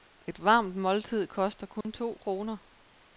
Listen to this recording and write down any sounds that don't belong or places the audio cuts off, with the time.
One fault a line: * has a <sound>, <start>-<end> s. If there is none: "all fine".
* has a dropout, 1.8-1.8 s